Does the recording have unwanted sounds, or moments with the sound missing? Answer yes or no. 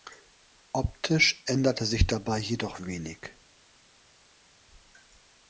no